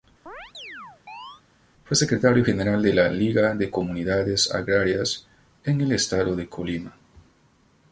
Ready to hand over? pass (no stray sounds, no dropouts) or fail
fail